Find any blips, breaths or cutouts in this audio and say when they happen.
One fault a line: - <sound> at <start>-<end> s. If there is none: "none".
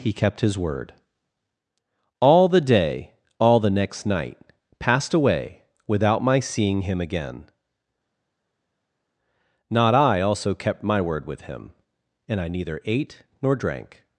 none